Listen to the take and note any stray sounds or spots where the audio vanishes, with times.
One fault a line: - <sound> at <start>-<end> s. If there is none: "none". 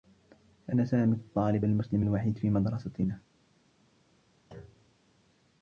- thud at 4.5-5.0 s